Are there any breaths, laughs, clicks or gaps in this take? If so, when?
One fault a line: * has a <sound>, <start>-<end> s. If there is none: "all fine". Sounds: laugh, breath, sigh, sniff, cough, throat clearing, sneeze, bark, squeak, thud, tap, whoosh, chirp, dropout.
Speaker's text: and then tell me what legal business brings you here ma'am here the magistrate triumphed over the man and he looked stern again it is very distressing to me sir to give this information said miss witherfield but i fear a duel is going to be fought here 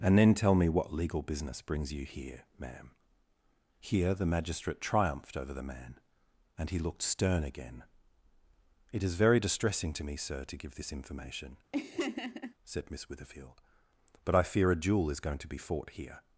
* has a laugh, 11.7-12.5 s